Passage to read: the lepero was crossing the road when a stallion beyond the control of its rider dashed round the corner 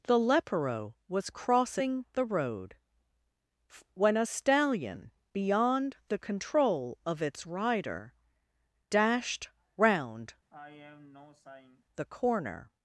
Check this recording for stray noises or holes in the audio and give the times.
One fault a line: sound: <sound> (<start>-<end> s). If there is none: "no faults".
sound: sigh (10.5-11.8 s)